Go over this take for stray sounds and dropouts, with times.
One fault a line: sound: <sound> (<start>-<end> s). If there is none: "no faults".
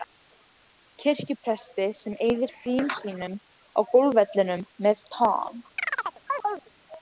sound: chirp (5.8-6.7 s)